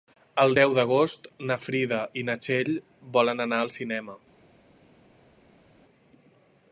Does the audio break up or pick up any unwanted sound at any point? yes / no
no